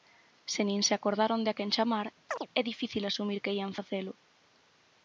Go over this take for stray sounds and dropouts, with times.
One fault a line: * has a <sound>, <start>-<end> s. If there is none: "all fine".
* has a chirp, 2.3-2.5 s